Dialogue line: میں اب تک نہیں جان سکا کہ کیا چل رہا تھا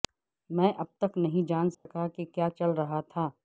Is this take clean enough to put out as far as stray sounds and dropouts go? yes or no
no